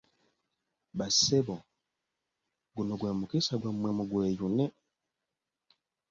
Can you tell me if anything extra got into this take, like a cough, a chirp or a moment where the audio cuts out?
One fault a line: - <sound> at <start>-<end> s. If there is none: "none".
none